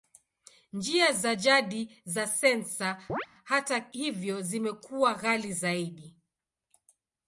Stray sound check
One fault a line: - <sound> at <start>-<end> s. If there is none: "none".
- chirp at 3.1-3.3 s